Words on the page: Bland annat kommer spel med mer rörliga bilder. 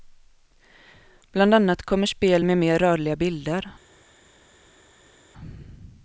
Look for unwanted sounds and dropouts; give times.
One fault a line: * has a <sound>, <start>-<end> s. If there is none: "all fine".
all fine